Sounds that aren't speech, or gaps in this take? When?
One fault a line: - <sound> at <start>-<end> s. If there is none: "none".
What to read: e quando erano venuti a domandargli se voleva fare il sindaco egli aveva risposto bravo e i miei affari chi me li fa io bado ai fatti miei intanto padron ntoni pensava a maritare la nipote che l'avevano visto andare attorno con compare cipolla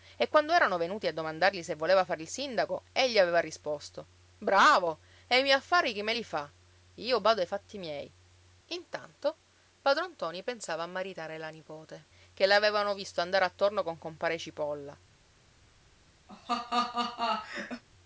- laugh at 16.3-17.8 s